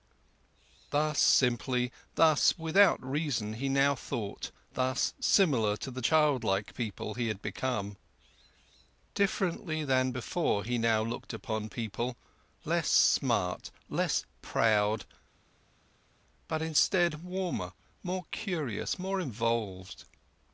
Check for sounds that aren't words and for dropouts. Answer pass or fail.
pass